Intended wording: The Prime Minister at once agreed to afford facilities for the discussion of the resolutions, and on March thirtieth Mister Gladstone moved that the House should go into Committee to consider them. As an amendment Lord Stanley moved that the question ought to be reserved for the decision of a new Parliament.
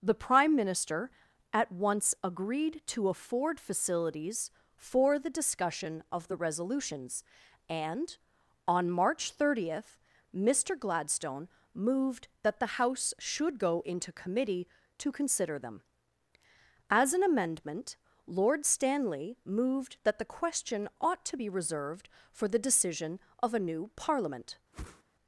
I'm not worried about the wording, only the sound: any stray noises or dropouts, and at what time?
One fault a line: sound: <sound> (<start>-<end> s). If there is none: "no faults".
sound: whoosh (24.7-25.0 s)